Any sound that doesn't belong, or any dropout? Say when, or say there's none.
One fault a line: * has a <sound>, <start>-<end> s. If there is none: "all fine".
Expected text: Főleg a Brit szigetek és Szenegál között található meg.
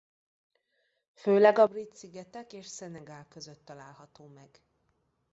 all fine